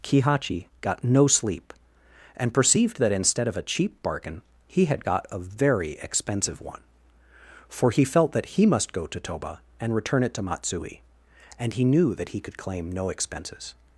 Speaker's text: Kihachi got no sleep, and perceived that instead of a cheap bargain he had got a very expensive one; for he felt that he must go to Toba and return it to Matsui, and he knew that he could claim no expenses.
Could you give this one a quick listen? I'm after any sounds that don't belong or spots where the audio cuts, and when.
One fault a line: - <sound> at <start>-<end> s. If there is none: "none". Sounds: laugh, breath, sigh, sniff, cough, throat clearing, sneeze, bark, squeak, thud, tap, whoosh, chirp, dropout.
none